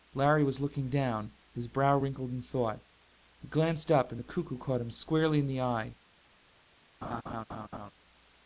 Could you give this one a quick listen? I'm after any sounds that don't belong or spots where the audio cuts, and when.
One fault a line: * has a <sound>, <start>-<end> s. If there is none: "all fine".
* has a laugh, 7.0-7.9 s